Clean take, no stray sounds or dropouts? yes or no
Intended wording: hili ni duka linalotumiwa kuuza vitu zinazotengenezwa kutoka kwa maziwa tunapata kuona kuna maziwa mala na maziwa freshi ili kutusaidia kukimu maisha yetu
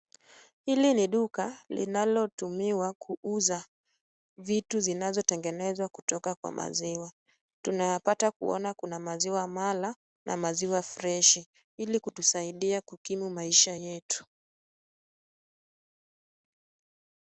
yes